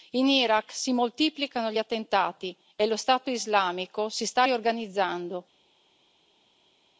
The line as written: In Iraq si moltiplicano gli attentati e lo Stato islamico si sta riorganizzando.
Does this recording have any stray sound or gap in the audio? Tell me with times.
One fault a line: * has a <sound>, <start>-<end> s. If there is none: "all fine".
all fine